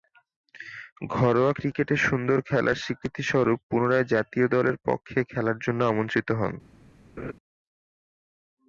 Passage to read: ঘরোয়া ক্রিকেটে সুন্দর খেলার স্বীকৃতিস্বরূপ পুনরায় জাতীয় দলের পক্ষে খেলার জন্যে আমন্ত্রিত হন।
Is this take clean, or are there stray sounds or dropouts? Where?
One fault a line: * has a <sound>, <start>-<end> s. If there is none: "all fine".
* has a laugh, 7.2-7.3 s